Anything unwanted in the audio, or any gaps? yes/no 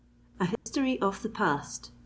yes